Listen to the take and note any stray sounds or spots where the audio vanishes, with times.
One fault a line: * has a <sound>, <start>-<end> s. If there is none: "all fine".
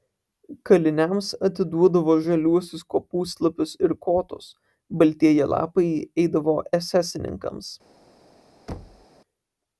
* has a thud, 8.7-9.1 s